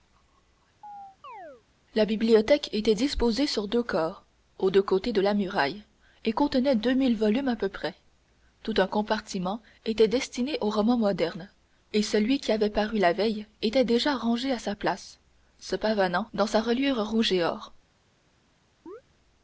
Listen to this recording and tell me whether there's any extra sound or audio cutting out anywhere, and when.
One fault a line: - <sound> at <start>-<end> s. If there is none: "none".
- chirp at 0.8-1.6 s
- chirp at 18.9-19.0 s